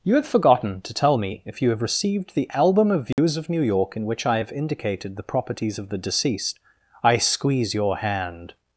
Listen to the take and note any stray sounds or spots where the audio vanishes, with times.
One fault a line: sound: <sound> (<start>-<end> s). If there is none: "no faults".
sound: dropout (3.1-3.2 s)